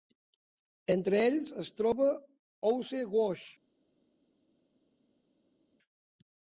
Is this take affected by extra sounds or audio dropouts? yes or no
no